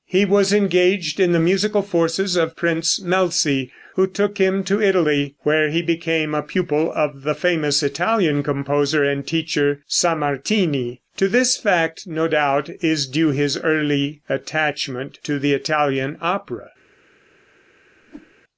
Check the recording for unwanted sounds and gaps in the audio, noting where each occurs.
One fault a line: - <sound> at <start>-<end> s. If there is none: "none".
- whoosh at 18.0-18.3 s